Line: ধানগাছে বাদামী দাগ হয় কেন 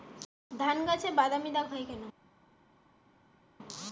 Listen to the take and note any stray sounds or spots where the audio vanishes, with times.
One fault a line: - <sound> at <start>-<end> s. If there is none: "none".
none